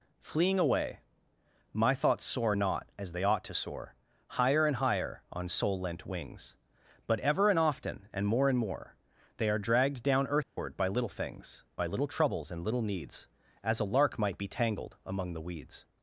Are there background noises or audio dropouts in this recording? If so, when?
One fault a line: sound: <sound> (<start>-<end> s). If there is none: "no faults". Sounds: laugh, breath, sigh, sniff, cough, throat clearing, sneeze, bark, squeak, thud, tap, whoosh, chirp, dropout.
sound: dropout (10.4-10.6 s)